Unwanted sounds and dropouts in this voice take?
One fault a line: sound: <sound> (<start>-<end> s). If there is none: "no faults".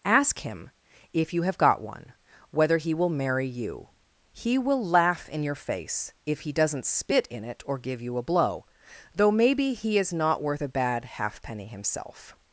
no faults